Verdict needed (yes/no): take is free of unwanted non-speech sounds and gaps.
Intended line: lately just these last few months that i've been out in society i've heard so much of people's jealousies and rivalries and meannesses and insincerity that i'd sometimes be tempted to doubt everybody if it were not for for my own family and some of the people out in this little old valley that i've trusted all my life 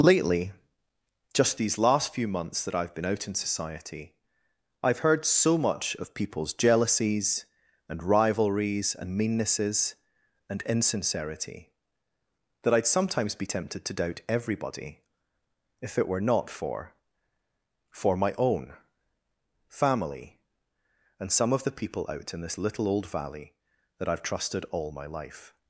yes